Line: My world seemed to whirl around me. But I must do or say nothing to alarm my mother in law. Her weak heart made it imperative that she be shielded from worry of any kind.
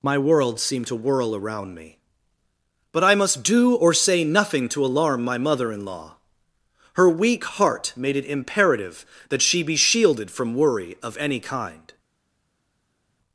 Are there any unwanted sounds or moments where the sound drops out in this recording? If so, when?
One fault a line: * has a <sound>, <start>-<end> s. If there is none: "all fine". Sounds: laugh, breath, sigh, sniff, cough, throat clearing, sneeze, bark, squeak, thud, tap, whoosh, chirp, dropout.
all fine